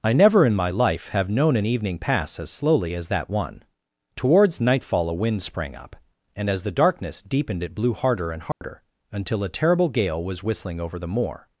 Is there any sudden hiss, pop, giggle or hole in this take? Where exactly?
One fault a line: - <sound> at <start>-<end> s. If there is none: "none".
- dropout at 8.5-8.6 s